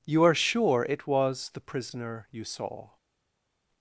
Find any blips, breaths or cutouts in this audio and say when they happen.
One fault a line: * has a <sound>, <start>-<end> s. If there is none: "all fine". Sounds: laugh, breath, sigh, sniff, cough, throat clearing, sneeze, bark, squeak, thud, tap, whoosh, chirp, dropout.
all fine